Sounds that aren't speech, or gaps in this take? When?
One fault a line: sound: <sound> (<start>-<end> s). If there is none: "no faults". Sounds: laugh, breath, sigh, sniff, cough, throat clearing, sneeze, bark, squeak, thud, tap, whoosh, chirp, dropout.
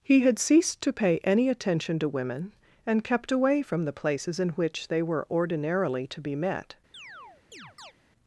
sound: chirp (6.9-7.9 s)